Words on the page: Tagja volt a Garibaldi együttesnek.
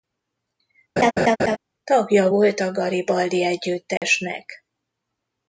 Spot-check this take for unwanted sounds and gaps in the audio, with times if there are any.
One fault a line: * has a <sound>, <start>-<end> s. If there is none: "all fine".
* has a laugh, 1.0-1.6 s
* has a dropout, 4.0-4.0 s